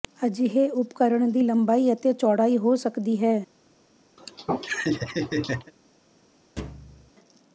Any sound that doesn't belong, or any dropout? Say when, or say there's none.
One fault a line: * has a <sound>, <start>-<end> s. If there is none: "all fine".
* has a laugh, 4.2-5.7 s
* has a thud, 6.6-7.1 s